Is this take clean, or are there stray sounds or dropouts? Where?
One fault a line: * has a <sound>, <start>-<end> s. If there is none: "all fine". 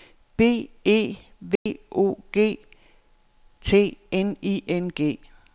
* has a dropout, 1.6-1.7 s